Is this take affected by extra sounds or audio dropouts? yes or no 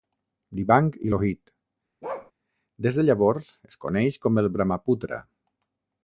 yes